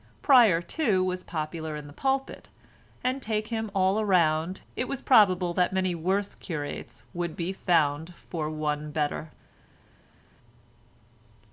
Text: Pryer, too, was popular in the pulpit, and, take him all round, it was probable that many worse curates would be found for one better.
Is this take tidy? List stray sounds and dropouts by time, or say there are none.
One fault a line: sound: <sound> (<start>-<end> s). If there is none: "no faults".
no faults